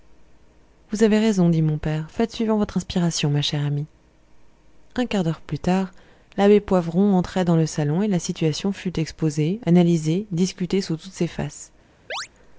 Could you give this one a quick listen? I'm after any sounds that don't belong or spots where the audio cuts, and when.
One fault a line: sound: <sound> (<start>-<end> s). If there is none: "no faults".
sound: chirp (12.1-12.3 s)